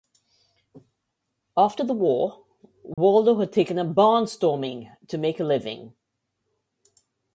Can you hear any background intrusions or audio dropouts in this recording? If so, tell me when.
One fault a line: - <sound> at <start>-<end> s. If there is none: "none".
- dropout at 2.9-3.0 s